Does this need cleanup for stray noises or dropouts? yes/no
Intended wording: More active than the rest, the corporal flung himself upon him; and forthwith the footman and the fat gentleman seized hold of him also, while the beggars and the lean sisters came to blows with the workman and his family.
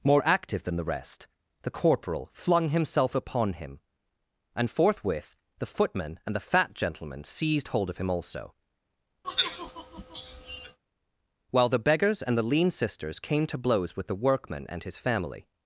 yes